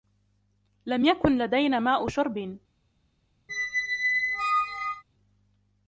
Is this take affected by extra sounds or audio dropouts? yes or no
yes